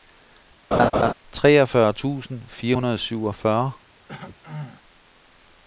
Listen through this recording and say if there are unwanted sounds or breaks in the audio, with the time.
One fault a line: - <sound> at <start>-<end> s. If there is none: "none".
- laugh at 0.7-1.1 s
- throat clearing at 4.1-4.8 s